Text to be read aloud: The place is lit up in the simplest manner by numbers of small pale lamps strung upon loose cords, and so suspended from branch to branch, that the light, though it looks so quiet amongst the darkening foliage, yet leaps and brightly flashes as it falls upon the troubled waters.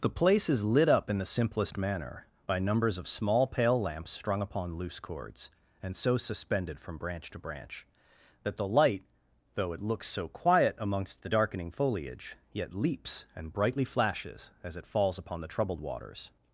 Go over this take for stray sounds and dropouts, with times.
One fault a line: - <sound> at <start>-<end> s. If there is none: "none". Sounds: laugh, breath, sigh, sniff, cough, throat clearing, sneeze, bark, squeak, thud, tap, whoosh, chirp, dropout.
none